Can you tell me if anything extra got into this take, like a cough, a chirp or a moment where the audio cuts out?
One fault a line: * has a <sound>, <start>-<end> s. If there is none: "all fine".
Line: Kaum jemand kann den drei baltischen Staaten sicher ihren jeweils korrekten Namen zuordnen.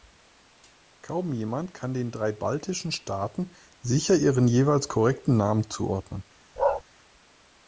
* has a bark, 6.6-6.8 s